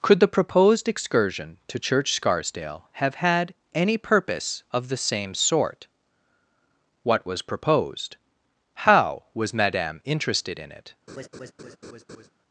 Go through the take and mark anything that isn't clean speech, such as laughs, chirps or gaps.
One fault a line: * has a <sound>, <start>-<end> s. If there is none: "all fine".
* has a laugh, 11.1-12.3 s